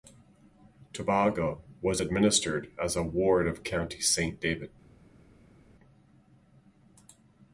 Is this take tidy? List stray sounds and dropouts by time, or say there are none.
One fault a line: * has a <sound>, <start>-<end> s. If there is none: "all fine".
all fine